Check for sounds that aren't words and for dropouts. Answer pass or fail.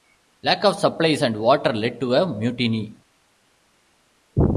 pass